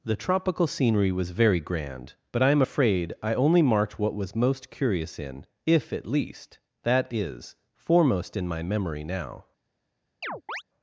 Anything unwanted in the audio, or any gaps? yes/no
yes